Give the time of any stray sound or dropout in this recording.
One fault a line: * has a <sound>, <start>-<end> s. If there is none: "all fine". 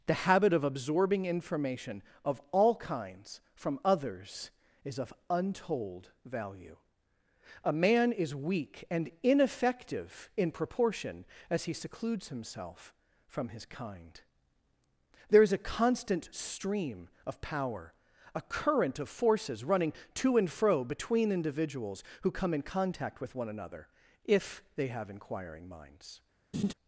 * has a laugh, 26.5-26.7 s